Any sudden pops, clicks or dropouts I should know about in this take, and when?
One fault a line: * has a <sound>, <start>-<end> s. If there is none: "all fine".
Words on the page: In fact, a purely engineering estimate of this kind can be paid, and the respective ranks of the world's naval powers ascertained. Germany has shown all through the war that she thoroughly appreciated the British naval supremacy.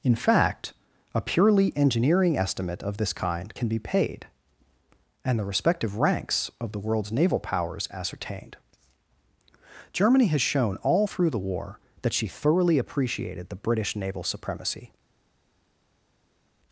all fine